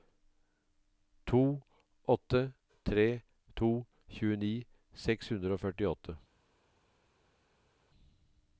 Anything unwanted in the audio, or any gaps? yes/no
no